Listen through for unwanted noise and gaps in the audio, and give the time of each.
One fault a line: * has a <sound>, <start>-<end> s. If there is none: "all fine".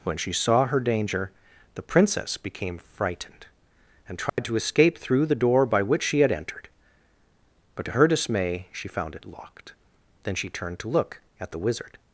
* has a dropout, 4.3-4.4 s